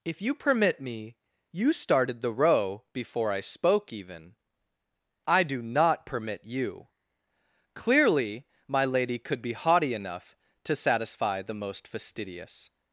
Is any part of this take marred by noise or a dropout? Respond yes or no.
no